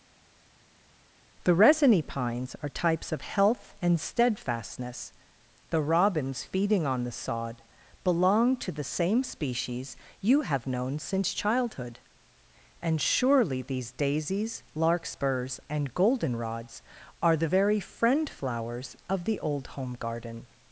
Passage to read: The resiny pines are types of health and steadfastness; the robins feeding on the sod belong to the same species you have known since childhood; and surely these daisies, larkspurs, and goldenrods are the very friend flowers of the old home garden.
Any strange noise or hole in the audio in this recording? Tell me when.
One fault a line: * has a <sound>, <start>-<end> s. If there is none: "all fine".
all fine